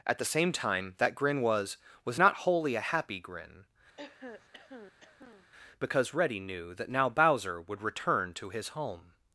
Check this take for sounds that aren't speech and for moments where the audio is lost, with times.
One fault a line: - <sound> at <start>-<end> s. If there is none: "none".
- throat clearing at 4.0-5.5 s